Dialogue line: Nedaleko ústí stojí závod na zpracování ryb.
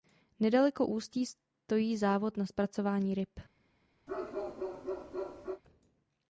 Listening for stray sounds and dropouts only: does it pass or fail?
fail